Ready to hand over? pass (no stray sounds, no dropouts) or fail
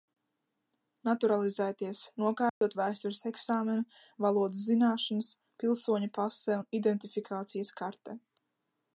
fail